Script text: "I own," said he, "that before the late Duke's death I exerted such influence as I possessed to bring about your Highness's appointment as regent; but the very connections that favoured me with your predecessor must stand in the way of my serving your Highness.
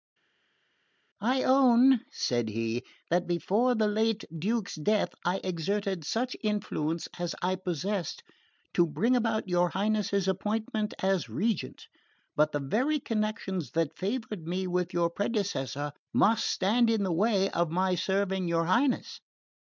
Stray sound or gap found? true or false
false